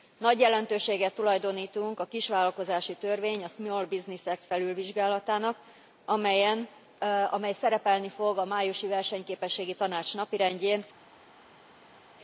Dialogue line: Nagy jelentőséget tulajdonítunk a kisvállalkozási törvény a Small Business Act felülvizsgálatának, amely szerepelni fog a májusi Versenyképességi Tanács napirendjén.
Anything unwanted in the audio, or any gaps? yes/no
no